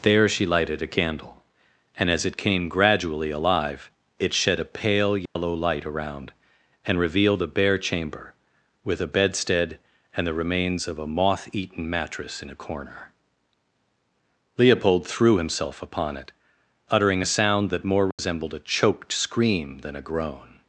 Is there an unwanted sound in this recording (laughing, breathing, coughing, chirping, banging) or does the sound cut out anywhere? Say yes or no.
yes